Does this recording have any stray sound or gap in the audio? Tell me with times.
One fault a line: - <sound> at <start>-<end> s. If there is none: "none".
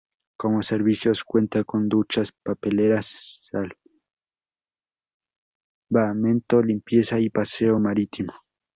none